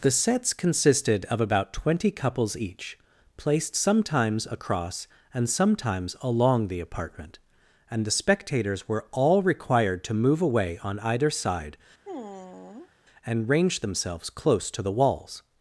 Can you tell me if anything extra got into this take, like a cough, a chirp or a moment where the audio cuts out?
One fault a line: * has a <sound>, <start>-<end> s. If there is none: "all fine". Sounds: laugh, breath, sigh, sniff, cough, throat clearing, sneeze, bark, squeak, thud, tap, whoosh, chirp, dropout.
* has a sigh, 12.1-12.9 s